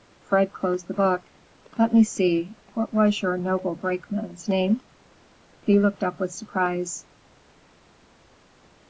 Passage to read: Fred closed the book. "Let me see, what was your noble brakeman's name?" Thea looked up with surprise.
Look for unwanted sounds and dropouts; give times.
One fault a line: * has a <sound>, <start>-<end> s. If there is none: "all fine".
all fine